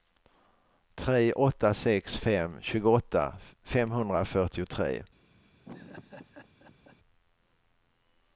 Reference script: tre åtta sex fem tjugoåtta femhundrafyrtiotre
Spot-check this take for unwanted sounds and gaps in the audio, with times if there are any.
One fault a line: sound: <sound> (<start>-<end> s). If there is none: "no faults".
sound: laugh (5.6-7.0 s)